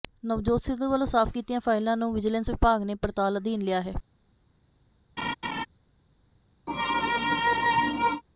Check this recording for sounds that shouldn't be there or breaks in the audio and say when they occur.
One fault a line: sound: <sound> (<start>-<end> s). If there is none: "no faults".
sound: laugh (5.2-5.7 s)
sound: sneeze (6.7-8.2 s)